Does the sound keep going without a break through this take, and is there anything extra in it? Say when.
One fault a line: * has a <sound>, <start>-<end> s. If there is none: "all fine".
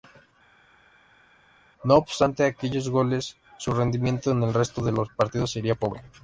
all fine